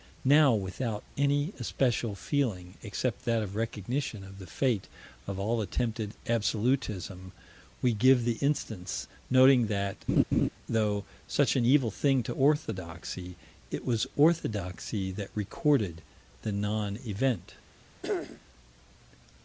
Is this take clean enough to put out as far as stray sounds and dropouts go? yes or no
no